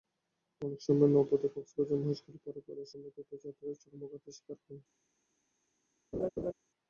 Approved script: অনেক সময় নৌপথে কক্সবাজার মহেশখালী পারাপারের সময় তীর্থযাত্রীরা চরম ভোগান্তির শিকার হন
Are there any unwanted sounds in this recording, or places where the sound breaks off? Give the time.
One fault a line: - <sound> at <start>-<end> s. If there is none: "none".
- laugh at 6.1-6.5 s